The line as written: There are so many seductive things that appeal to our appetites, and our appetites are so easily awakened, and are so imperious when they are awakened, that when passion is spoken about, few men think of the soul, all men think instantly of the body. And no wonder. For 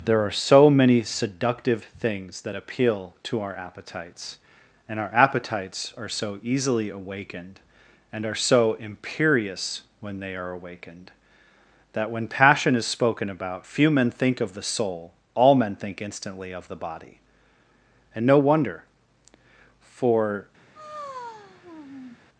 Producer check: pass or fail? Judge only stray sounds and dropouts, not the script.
fail